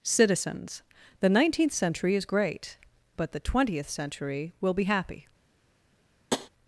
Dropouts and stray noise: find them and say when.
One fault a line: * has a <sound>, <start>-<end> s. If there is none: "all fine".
* has a tap, 6.3-6.5 s